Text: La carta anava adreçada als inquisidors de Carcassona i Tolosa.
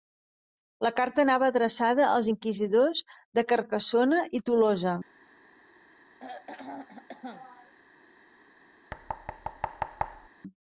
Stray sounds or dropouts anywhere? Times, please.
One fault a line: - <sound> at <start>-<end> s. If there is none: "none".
- throat clearing at 6.2-7.7 s
- thud at 8.9-10.3 s